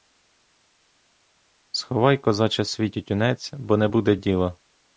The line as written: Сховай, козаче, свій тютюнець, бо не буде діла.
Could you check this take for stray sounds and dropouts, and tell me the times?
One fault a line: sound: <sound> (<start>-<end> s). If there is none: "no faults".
no faults